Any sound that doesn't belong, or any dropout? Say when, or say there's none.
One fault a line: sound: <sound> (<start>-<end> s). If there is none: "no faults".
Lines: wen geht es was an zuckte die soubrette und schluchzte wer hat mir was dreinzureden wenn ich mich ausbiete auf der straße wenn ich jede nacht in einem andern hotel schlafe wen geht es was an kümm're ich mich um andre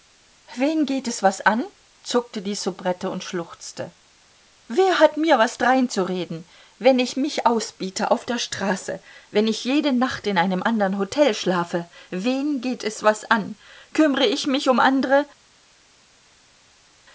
no faults